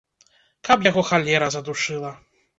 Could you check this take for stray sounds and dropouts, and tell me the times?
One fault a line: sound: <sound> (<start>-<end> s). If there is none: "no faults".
no faults